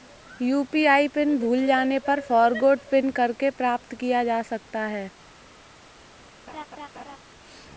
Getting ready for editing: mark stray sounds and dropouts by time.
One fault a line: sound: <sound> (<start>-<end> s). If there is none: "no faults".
sound: laugh (6.5-7.2 s)